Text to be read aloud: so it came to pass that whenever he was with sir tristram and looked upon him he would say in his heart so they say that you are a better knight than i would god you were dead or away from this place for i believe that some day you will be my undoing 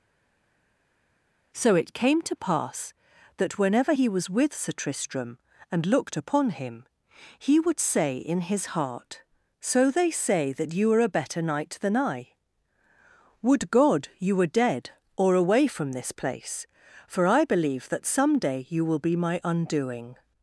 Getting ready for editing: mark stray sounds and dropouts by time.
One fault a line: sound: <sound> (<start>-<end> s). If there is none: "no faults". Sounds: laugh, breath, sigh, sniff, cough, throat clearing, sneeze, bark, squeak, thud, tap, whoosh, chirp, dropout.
no faults